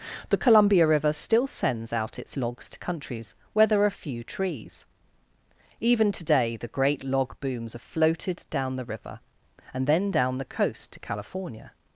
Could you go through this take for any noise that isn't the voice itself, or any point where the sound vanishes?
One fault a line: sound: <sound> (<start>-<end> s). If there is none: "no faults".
no faults